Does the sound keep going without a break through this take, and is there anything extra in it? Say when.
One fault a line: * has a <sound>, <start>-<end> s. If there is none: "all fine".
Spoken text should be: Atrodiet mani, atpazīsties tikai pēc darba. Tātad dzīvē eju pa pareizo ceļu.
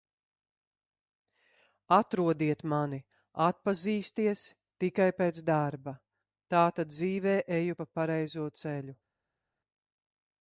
all fine